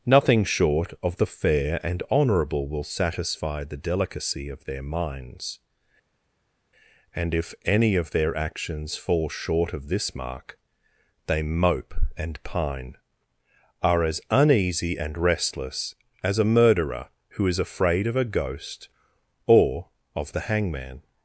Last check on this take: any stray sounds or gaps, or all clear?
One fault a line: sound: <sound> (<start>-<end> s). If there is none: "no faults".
no faults